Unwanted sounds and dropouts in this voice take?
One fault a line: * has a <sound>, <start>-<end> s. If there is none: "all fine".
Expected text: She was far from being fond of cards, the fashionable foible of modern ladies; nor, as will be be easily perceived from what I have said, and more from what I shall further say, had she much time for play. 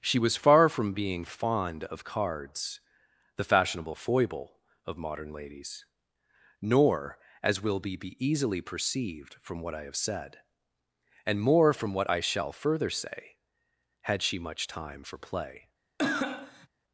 * has a cough, 16.0-16.7 s